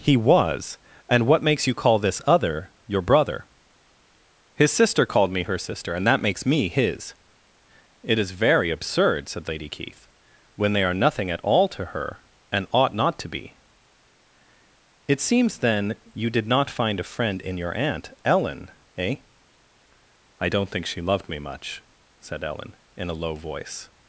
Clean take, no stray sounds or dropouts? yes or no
yes